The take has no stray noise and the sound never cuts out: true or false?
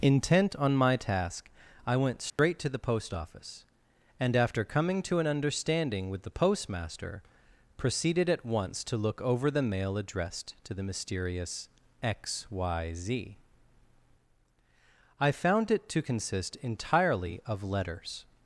false